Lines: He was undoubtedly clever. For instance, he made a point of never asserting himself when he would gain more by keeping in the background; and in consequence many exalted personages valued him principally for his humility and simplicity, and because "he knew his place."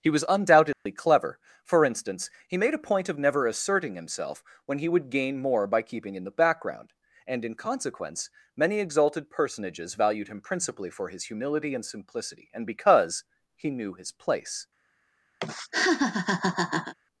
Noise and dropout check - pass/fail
fail